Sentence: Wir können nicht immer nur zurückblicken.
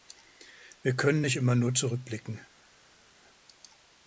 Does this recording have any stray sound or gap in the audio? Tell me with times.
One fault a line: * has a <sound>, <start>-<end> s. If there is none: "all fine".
all fine